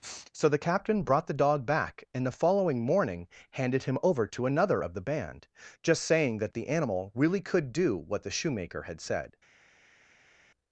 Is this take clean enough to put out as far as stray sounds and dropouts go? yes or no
yes